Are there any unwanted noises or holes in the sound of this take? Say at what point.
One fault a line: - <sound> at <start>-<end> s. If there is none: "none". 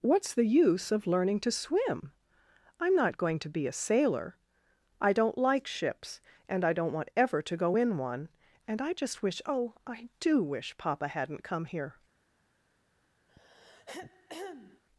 - throat clearing at 13.3-14.8 s